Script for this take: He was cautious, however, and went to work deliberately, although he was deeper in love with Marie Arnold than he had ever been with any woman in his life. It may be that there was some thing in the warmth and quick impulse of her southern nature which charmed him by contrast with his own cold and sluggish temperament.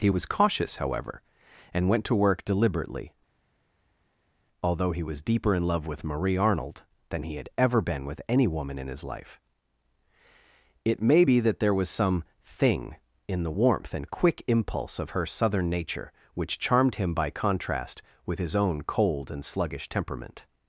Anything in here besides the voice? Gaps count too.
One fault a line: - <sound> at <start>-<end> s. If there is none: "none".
none